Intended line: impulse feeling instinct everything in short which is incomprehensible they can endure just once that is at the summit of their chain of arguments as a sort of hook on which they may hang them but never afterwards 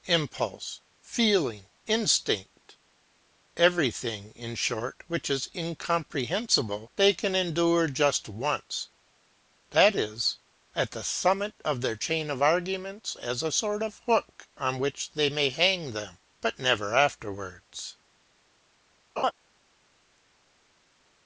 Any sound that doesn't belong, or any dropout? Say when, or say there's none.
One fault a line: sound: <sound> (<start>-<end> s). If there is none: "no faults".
sound: laugh (19.2-19.3 s)